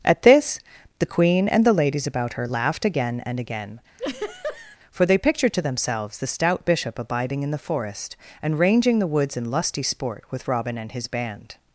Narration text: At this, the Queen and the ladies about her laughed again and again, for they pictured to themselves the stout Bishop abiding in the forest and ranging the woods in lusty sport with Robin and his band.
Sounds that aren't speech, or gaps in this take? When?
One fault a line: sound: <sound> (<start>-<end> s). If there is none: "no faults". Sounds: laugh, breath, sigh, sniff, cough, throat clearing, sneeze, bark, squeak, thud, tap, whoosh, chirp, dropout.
sound: laugh (4.0-4.8 s)